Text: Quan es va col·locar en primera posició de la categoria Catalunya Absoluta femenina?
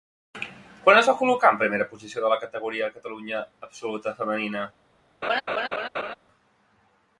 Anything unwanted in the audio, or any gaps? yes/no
yes